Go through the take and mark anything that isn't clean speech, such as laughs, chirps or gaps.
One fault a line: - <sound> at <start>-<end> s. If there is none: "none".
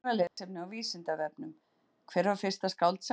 - dropout at 0.3-0.4 s